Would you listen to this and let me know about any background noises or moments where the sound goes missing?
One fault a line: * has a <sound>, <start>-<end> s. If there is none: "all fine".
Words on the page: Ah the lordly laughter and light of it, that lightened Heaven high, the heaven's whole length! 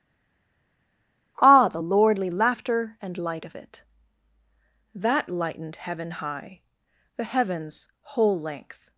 all fine